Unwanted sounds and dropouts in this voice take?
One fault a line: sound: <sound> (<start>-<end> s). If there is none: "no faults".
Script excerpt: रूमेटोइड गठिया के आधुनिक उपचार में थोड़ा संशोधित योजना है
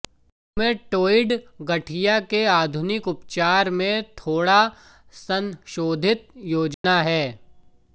sound: dropout (6.7-6.8 s)